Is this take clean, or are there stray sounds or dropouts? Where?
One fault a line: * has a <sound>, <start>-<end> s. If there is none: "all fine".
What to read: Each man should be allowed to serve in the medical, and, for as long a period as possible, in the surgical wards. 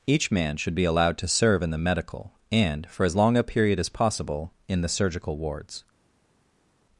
all fine